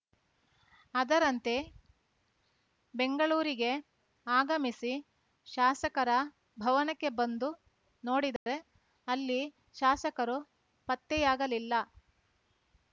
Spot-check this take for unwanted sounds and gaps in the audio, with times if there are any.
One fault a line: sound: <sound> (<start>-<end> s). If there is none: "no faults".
sound: dropout (8.4-8.5 s)